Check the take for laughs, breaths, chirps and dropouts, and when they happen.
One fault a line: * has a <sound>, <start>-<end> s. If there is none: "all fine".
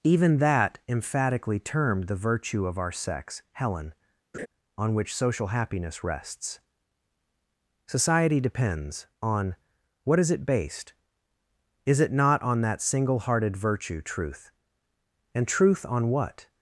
* has a laugh, 4.3-4.5 s